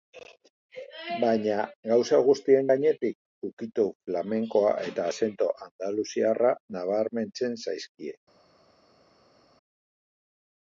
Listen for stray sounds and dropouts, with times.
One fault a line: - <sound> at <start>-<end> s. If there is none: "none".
none